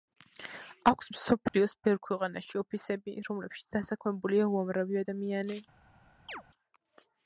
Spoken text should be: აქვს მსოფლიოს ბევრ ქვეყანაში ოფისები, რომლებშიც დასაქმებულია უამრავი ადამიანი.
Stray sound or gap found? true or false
true